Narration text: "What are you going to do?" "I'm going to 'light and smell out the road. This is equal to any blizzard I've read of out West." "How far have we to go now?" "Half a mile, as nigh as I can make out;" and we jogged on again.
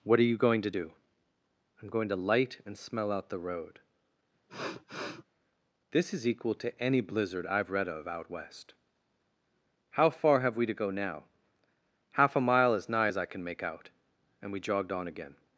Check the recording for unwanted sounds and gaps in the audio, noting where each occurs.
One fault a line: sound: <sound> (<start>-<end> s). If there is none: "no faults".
sound: sniff (4.5-5.2 s)